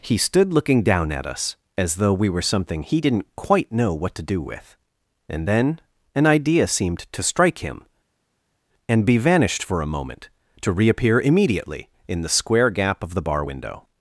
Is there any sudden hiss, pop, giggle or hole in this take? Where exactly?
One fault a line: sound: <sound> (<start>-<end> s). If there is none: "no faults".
no faults